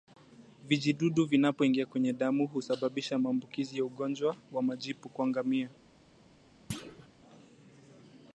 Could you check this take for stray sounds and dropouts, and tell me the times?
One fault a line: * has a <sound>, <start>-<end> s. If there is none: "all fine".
* has a thud, 6.7-7.1 s